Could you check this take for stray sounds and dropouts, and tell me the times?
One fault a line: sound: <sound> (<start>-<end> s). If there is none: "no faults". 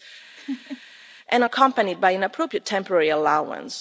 sound: laugh (0.4-0.8 s)